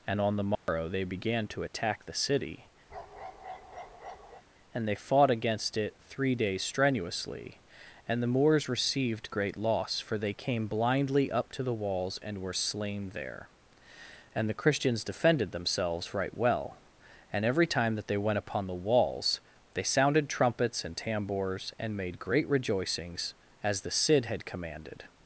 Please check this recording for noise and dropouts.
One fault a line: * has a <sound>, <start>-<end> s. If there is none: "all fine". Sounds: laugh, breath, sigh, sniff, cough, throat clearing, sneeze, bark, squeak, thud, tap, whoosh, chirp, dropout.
* has a dropout, 0.6-0.7 s
* has a bark, 2.9-4.4 s